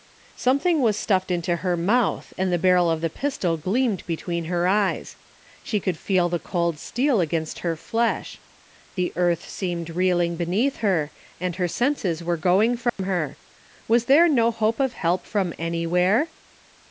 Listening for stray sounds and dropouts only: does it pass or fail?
fail